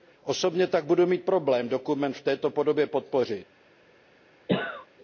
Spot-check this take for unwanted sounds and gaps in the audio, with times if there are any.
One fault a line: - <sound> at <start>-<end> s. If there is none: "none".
- cough at 4.5-4.9 s